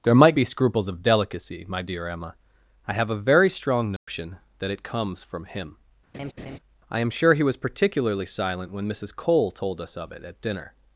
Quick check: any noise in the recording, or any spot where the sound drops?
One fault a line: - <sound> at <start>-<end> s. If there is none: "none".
- dropout at 4.0-4.1 s
- laugh at 6.1-6.6 s